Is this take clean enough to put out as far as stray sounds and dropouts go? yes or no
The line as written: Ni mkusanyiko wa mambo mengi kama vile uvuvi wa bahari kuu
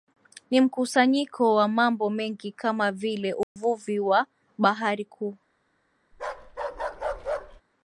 no